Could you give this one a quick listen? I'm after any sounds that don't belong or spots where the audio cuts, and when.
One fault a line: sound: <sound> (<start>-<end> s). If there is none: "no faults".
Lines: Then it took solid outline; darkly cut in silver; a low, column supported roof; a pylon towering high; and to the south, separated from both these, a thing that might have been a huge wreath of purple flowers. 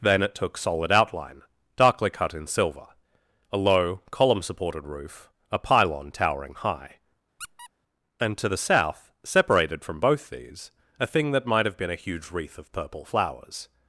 sound: squeak (7.4-7.7 s)